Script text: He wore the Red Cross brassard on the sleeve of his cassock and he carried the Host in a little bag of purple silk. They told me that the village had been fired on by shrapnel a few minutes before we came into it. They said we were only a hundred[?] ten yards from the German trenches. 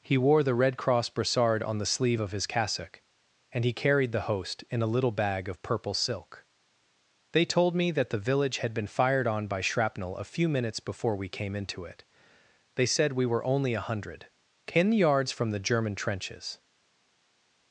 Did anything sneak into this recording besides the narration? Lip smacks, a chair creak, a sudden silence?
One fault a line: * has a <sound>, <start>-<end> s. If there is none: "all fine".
all fine